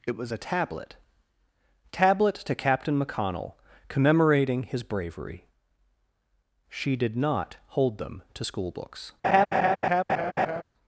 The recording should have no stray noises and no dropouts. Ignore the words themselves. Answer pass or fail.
fail